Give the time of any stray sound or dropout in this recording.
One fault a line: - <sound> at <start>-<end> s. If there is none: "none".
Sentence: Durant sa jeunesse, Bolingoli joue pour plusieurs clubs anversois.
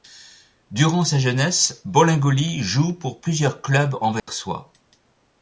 - dropout at 4.2-4.3 s